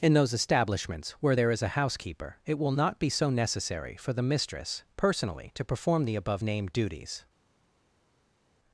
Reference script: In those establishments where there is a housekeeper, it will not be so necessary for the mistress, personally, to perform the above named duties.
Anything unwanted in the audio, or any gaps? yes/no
no